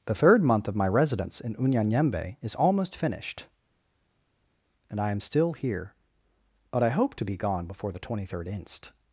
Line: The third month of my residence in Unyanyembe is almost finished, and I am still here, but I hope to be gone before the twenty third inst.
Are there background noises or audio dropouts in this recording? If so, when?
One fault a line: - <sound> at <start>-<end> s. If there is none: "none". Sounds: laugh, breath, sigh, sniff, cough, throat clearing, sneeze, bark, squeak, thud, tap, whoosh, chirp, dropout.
none